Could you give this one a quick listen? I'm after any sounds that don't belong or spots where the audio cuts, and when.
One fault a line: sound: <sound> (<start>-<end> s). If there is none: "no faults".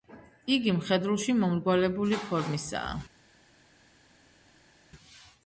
no faults